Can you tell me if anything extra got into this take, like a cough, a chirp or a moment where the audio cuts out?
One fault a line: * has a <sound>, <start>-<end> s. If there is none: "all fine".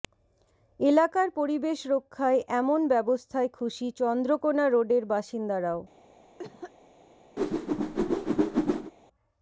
* has a cough, 6.4-6.7 s
* has a whoosh, 7.4-8.9 s